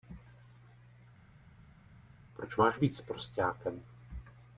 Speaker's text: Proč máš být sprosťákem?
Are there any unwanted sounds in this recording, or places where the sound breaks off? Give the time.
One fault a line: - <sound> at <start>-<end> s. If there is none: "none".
none